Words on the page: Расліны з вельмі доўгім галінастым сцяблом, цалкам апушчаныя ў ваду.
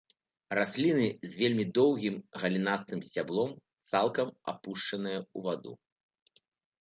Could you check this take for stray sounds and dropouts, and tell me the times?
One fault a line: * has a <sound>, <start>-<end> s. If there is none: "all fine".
all fine